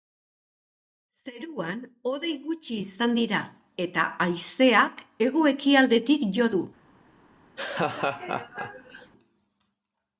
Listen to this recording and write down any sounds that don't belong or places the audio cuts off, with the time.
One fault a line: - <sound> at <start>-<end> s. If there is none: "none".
- laugh at 7.6-9.1 s